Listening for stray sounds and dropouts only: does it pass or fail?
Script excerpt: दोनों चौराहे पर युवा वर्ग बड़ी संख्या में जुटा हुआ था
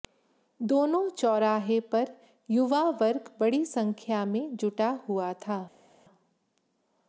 pass